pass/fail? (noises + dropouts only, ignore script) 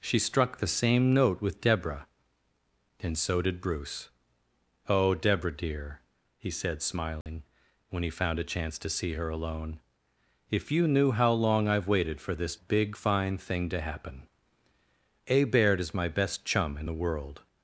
fail